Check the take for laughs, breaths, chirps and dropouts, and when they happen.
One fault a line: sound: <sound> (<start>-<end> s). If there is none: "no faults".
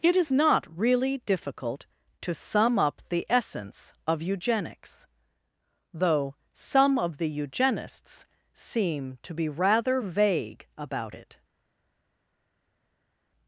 no faults